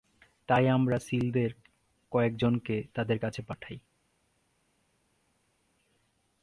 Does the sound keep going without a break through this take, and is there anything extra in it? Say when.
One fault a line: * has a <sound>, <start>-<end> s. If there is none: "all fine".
all fine